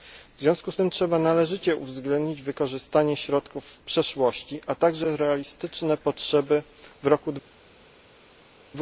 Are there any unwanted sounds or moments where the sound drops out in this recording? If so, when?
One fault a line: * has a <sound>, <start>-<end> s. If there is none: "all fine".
all fine